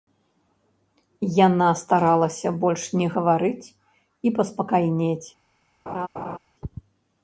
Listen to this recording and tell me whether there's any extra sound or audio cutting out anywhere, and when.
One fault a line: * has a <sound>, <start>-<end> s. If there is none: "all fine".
* has a laugh, 5.9-6.4 s